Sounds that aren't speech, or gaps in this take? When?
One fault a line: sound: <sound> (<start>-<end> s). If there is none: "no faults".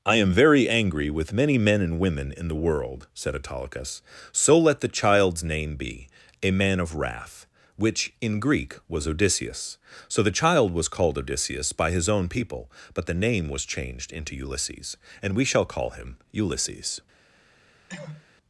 sound: cough (17.9-18.3 s)